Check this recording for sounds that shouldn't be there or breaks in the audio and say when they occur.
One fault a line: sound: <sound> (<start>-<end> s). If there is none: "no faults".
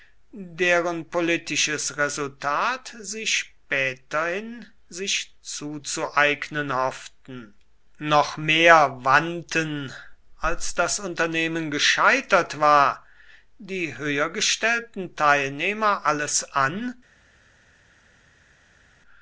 no faults